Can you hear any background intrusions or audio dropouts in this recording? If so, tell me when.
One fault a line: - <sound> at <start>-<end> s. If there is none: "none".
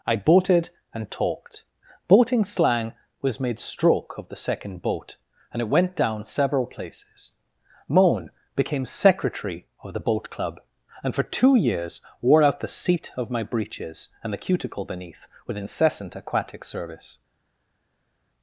none